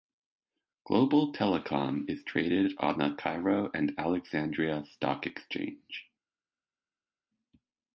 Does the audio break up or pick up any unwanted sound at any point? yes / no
no